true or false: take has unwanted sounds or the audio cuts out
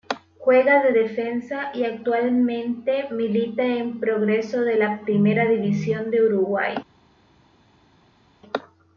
false